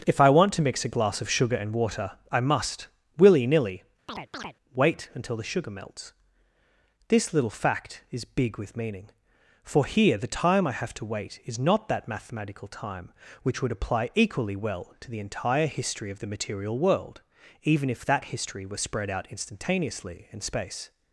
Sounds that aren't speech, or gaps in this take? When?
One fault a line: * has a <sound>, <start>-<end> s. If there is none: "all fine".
* has a chirp, 4.1-4.6 s